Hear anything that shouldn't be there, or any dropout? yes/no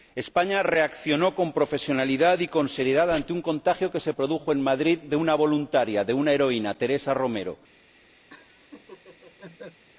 yes